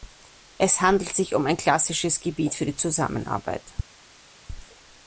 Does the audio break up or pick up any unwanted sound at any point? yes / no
no